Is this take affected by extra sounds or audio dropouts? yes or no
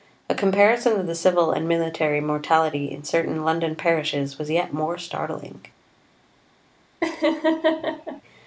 yes